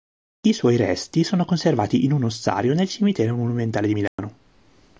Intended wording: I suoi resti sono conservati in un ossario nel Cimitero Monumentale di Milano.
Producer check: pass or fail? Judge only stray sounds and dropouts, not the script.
fail